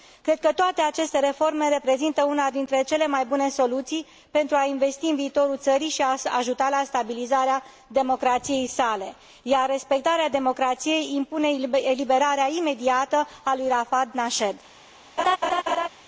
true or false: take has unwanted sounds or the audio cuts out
true